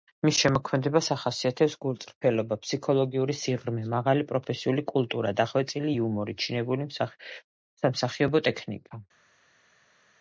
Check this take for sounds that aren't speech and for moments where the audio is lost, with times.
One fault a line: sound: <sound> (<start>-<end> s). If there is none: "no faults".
no faults